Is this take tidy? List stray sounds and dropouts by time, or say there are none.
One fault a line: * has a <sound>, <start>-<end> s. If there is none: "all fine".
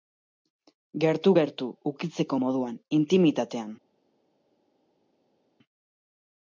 all fine